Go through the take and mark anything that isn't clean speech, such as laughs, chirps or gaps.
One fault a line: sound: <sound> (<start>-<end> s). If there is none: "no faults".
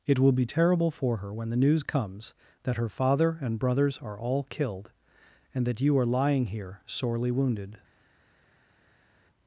no faults